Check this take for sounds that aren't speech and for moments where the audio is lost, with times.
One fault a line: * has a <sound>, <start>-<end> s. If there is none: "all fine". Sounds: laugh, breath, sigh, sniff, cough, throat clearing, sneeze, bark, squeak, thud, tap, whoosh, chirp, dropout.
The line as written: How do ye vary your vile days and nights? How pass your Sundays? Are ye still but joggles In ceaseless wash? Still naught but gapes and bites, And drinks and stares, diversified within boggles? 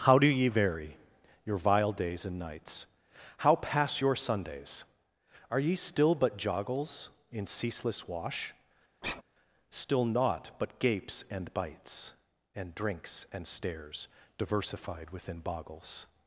* has a sigh, 9.0-9.2 s